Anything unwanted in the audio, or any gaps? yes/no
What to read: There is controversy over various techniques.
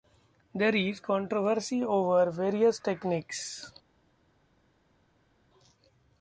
no